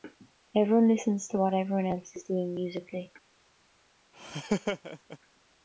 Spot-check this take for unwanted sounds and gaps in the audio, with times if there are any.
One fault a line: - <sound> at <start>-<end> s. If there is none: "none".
- laugh at 4.1-5.2 s